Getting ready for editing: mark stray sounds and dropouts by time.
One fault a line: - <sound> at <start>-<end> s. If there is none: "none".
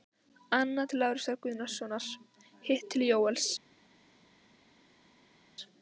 none